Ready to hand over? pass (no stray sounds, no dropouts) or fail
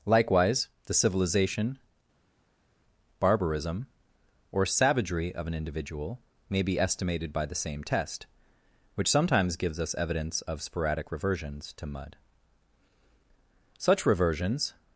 pass